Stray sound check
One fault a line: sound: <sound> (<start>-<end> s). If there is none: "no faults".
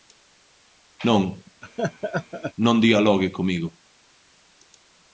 sound: laugh (1.6-2.5 s)